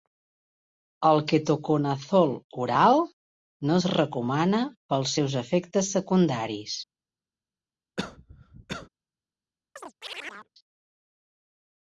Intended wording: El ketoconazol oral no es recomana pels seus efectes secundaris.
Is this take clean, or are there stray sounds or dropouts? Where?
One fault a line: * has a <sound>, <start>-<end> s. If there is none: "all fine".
* has a cough, 8.0-8.9 s
* has a chirp, 9.8-10.5 s